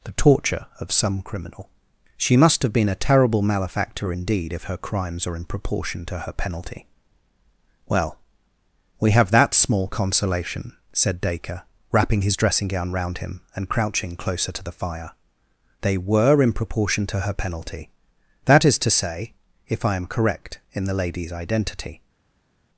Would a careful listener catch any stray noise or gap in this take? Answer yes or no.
no